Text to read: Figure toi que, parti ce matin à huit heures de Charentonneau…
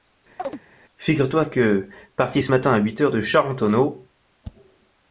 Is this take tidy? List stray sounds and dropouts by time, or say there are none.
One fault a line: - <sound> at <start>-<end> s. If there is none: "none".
- chirp at 0.4-0.6 s